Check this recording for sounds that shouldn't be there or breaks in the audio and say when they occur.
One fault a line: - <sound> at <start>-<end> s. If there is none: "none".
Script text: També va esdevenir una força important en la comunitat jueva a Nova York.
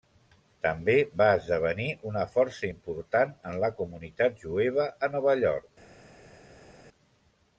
none